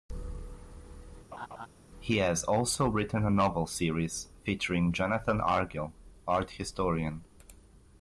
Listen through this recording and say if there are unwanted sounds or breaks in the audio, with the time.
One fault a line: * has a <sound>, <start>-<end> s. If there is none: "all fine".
* has a laugh, 1.3-1.7 s